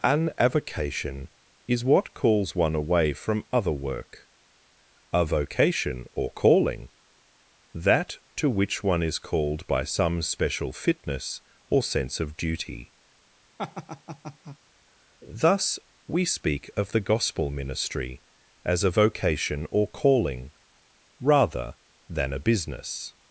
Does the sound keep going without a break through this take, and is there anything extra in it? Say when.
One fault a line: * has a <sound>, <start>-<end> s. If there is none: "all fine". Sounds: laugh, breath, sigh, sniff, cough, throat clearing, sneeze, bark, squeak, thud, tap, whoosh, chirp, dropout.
* has a laugh, 13.6-14.6 s